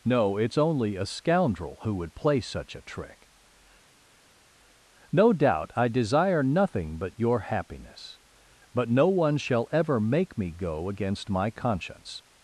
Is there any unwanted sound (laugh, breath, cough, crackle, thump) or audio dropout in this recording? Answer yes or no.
no